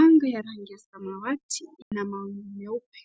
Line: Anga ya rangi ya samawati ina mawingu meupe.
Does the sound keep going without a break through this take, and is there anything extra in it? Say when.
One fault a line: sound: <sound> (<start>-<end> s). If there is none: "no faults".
sound: dropout (1.8-1.9 s)